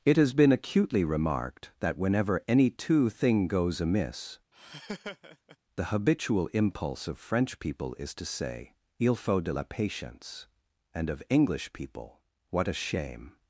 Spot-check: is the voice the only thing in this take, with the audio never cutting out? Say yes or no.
no